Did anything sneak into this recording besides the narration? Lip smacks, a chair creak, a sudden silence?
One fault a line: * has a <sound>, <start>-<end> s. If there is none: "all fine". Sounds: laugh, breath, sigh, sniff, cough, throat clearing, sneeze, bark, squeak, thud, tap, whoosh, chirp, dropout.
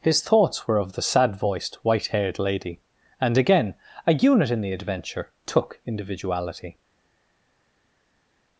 all fine